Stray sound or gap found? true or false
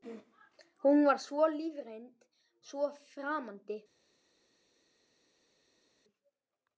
false